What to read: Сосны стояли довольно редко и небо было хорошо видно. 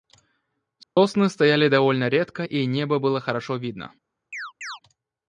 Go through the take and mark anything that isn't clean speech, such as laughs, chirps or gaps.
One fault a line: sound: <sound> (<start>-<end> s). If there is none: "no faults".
sound: dropout (0.8-1.0 s)
sound: chirp (4.3-4.8 s)